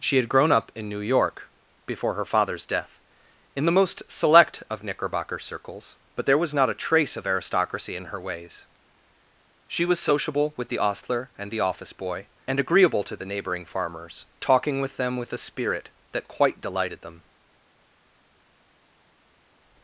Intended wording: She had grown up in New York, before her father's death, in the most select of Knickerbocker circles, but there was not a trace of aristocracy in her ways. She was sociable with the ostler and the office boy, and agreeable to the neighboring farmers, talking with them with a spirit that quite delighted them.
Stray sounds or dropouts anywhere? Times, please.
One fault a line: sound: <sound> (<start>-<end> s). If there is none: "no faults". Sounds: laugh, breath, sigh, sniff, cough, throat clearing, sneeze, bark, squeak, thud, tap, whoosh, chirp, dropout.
no faults